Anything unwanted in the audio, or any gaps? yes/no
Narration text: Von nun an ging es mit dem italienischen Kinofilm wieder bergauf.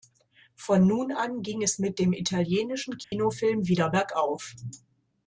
yes